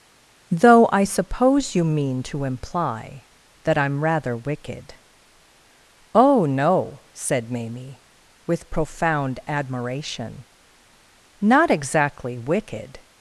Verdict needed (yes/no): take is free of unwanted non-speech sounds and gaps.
yes